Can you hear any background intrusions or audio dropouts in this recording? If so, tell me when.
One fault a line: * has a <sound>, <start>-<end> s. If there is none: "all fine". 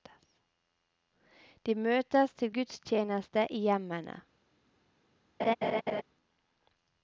* has a laugh, 5.4-6.0 s